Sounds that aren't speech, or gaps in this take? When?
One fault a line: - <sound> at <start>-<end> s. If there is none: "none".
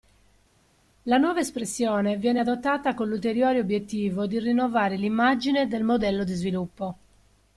none